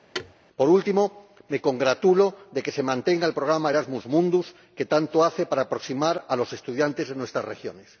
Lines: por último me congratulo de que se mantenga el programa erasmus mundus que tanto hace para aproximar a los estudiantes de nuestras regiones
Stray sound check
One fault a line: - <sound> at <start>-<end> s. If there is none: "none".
- thud at 0.1-0.3 s